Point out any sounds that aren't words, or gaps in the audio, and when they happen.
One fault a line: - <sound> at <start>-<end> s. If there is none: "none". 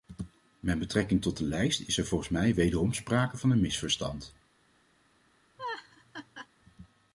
- laugh at 5.6-6.5 s